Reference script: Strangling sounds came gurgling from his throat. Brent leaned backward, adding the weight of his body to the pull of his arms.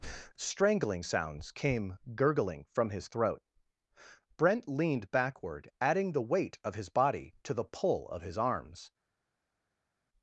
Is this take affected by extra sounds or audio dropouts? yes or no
no